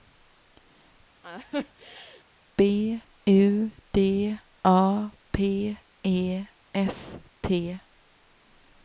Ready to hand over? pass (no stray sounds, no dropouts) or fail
fail